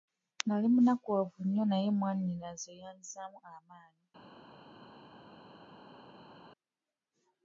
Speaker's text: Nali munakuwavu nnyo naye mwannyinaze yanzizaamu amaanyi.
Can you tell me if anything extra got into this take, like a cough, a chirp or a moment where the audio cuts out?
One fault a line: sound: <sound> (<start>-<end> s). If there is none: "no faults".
no faults